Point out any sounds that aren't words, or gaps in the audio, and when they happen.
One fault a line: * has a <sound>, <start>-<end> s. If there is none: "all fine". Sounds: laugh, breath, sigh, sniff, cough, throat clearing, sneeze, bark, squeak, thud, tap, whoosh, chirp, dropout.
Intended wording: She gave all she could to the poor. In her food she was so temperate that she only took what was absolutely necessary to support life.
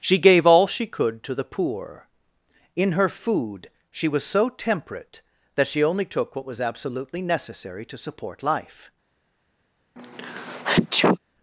* has a sneeze, 10.0-11.2 s